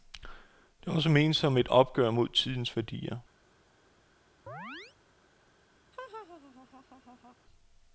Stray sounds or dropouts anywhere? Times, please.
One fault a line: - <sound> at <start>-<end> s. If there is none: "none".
- chirp at 4.5-5.0 s
- laugh at 5.9-7.4 s